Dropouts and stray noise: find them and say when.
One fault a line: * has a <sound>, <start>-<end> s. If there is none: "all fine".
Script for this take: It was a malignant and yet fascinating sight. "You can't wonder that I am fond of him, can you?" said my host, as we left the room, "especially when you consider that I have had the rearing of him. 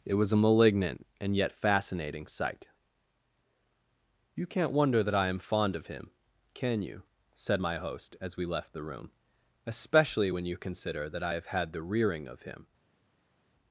all fine